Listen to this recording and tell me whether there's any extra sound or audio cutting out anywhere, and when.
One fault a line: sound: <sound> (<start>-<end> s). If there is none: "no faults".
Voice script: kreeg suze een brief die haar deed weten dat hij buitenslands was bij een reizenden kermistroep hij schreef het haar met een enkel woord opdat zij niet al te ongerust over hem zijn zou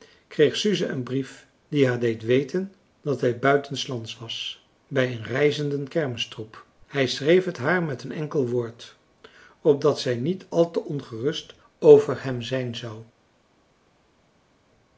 no faults